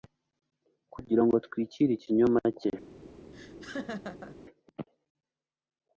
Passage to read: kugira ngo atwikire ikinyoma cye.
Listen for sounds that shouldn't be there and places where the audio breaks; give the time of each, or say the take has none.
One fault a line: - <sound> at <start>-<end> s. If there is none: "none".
- laugh at 3.3-4.4 s